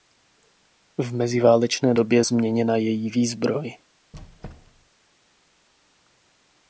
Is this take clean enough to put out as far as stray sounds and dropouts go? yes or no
no